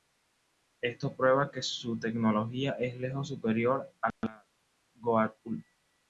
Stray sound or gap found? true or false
false